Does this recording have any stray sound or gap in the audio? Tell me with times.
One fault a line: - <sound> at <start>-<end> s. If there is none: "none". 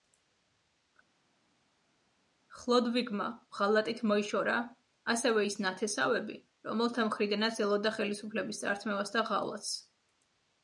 none